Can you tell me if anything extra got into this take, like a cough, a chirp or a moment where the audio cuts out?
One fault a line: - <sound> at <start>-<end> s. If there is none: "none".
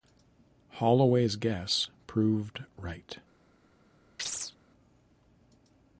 - chirp at 4.2-4.6 s